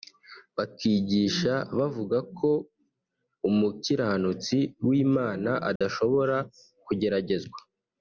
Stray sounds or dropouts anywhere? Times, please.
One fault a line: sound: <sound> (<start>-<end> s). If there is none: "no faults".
sound: dropout (5.8-5.8 s)